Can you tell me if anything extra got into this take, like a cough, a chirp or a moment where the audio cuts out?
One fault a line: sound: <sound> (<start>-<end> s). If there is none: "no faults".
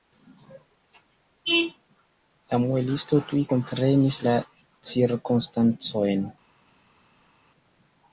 no faults